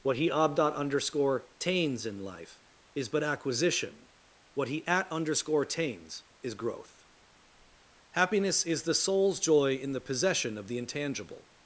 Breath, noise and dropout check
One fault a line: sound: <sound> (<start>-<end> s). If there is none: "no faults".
no faults